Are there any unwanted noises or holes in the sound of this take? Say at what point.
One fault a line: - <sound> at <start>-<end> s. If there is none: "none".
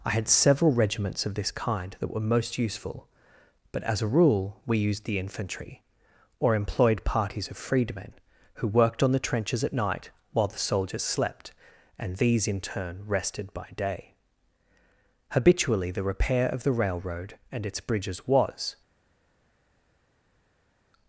none